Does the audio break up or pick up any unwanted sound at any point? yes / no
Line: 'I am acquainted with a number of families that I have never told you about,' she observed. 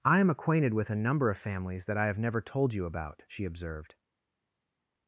no